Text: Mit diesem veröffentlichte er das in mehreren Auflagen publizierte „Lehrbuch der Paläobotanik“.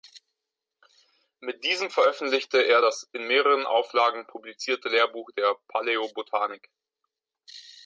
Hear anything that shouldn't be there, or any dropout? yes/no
no